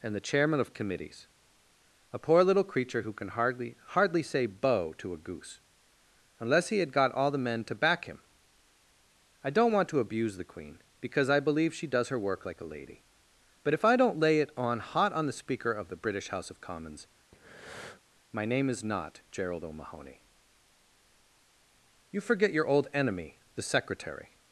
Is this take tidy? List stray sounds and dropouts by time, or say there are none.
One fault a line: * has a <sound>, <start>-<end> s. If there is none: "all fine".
* has a breath, 17.3-18.0 s